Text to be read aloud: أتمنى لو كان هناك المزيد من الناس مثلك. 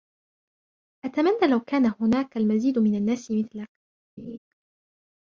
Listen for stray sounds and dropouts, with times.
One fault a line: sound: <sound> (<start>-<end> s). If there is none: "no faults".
sound: laugh (4.2-4.4 s)